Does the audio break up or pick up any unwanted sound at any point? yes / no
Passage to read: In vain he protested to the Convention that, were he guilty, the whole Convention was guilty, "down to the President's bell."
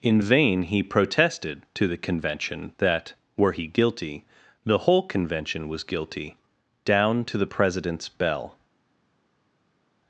no